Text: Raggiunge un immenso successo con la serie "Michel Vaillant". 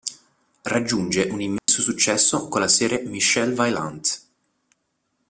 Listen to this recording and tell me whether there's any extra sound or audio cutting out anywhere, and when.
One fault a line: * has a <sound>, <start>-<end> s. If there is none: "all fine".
* has a dropout, 1.6-1.7 s